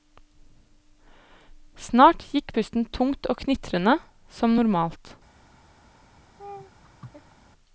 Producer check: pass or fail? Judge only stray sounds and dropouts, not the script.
fail